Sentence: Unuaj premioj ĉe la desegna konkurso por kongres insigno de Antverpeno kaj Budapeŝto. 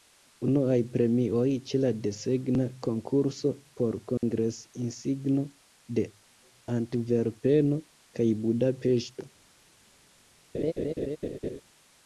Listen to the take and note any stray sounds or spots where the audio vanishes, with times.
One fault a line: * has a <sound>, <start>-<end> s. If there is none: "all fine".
* has a dropout, 4.2-4.2 s
* has a laugh, 10.5-11.6 s